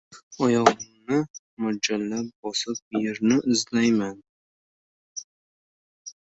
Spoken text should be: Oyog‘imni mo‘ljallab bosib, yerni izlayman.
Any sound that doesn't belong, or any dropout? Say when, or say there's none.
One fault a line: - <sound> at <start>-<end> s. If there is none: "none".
none